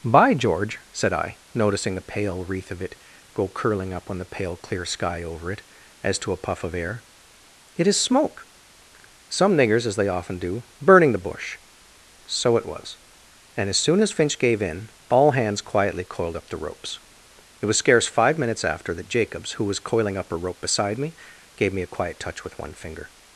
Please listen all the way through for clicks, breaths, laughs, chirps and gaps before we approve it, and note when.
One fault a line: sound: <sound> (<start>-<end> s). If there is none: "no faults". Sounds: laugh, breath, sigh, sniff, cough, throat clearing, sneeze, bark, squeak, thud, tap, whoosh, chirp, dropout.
no faults